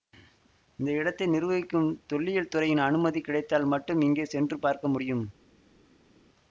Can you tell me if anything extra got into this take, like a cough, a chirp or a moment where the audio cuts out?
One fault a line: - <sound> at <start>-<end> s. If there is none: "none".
none